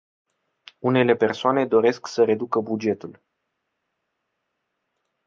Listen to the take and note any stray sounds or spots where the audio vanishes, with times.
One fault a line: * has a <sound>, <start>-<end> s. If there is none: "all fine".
all fine